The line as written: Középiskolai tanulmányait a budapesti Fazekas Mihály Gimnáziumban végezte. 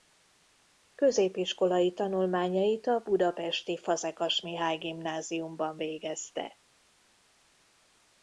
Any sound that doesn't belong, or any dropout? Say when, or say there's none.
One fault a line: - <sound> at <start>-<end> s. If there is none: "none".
none